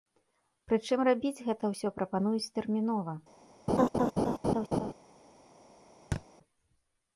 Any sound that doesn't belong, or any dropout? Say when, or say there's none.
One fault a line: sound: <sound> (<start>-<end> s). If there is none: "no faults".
sound: laugh (3.7-4.9 s)
sound: thud (6.1-6.2 s)